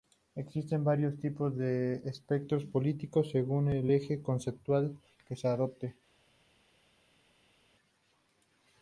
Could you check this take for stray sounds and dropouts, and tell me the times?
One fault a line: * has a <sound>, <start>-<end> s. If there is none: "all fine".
all fine